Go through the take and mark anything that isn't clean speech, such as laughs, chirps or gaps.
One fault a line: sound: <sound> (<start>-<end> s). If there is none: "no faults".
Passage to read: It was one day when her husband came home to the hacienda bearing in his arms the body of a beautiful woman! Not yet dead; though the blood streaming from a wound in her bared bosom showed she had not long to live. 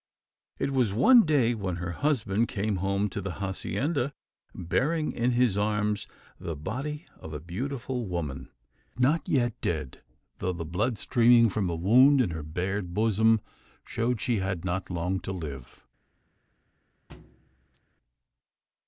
sound: thud (17.1-17.8 s)